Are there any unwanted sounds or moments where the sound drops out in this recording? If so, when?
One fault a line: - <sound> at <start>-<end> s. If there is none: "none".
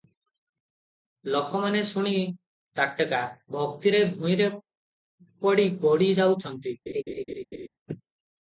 - laugh at 6.9-7.7 s